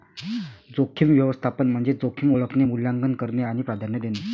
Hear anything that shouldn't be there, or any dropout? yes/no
no